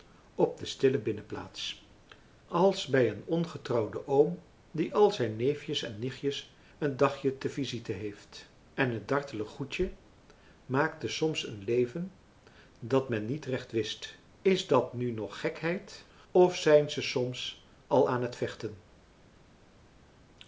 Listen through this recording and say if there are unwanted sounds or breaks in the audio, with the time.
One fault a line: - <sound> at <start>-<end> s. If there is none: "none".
none